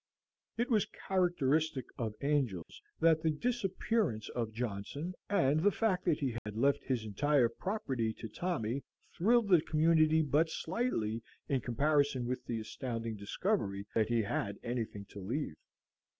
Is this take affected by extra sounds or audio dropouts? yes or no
yes